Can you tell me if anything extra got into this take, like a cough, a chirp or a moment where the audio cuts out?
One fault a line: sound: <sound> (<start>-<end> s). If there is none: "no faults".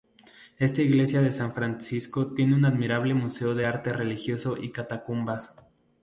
no faults